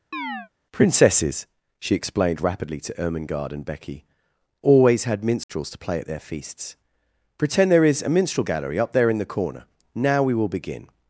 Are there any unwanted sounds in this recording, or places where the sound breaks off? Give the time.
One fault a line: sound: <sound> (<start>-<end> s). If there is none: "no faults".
sound: chirp (0.1-0.5 s)
sound: dropout (5.4-5.5 s)